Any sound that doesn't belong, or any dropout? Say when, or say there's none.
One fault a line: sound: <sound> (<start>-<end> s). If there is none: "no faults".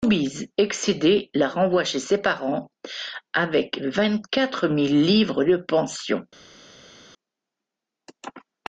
no faults